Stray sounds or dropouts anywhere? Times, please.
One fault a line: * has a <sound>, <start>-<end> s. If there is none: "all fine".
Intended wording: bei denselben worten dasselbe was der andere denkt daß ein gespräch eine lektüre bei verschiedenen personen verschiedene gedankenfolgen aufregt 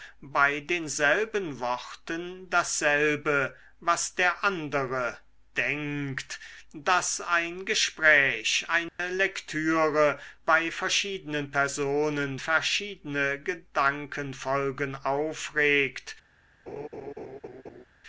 * has a dropout, 8.9-9.0 s
* has a laugh, 16.7-17.8 s